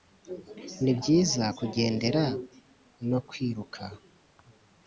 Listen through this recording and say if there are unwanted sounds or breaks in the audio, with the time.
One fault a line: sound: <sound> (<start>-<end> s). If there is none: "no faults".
no faults